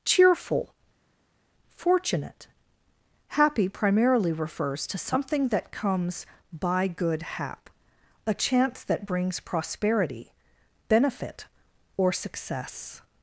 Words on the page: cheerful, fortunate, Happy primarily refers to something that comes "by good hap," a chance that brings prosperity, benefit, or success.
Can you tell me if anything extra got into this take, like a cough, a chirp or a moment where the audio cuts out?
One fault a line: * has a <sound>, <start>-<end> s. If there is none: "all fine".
all fine